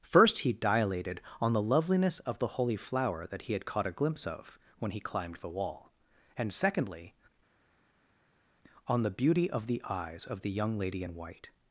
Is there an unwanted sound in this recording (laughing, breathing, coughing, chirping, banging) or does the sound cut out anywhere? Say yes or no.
no